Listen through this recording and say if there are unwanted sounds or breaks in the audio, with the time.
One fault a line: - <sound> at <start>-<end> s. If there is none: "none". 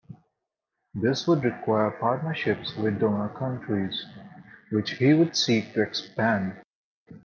none